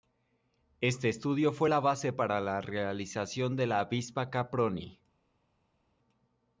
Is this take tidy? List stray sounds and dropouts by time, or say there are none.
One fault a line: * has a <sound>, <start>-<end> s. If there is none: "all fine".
all fine